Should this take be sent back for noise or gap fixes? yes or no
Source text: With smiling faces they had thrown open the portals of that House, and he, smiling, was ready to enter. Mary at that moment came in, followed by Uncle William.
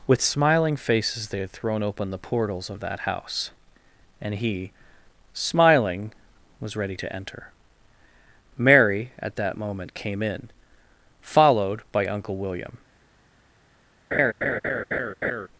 yes